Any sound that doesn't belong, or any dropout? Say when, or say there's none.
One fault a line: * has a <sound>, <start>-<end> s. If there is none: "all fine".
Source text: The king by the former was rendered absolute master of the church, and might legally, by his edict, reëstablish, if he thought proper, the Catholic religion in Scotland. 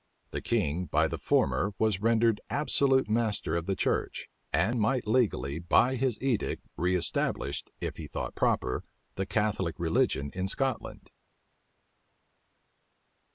all fine